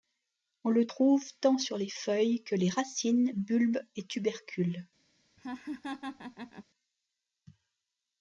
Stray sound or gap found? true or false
true